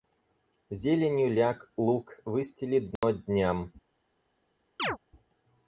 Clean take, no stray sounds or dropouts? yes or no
no